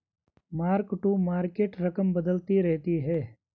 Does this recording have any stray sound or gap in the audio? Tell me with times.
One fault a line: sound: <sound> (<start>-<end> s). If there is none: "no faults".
no faults